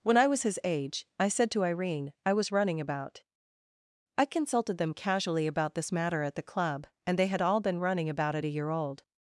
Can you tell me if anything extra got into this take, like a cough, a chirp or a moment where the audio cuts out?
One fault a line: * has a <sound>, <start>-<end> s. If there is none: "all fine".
all fine